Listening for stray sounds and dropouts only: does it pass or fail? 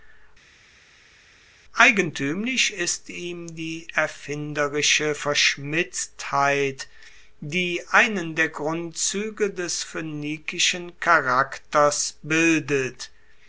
pass